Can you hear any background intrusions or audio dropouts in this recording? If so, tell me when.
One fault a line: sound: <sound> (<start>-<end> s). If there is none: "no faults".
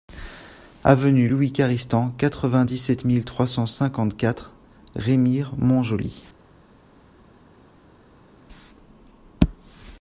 no faults